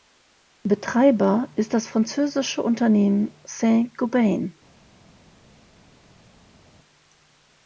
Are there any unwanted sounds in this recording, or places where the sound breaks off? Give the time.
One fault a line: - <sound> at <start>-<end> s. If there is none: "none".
none